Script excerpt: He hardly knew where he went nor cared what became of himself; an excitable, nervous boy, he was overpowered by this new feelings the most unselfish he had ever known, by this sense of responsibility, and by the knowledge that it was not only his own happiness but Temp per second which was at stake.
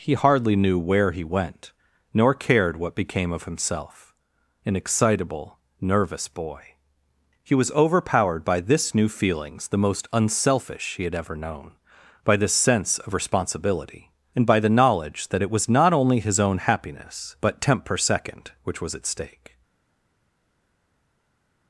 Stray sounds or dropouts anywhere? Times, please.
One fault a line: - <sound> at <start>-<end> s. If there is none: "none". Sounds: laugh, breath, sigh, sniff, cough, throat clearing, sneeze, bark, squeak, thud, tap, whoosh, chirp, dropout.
none